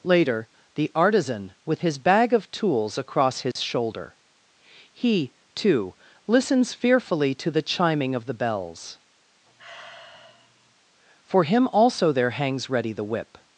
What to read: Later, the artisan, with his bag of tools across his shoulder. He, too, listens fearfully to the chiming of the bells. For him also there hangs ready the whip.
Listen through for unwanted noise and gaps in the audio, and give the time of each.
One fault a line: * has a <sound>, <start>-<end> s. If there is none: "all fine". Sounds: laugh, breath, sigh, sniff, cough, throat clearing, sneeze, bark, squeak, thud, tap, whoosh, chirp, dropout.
* has a dropout, 3.5-3.6 s
* has a sigh, 9.5-10.8 s